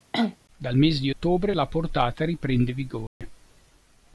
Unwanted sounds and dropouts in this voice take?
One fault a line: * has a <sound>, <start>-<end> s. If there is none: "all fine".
* has a cough, 0.1-0.4 s
* has a dropout, 3.1-3.2 s